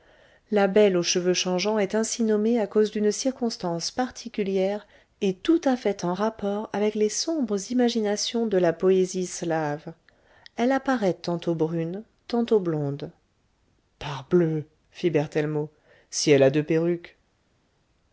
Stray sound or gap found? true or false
false